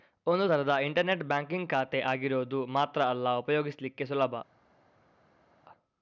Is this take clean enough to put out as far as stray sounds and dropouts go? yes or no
yes